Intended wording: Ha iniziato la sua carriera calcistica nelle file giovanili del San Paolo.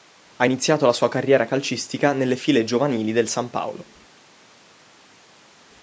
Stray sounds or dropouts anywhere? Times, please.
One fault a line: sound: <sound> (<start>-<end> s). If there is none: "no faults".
no faults